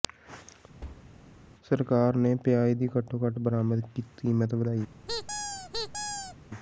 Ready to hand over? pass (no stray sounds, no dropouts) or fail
fail